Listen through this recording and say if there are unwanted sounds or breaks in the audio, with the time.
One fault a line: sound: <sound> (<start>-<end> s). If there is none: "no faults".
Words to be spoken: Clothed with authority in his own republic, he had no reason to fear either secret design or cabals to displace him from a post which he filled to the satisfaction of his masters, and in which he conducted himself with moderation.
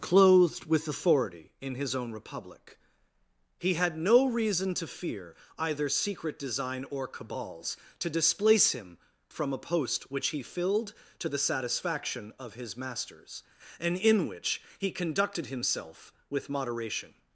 no faults